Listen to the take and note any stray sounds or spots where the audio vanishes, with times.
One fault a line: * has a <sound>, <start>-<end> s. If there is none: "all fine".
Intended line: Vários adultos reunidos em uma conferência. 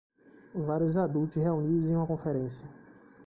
all fine